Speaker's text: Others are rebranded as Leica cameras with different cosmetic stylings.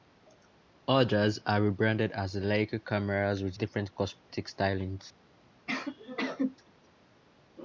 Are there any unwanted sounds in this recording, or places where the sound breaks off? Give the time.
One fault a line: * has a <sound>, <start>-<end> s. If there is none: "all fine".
* has a dropout, 4.2-4.3 s
* has a sneeze, 5.7-6.6 s